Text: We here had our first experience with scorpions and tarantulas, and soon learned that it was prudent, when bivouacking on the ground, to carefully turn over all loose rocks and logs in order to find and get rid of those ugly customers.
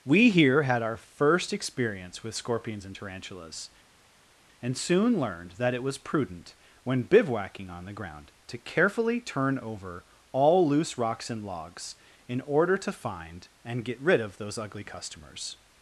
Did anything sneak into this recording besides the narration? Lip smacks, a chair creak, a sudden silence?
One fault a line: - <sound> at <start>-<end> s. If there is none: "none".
none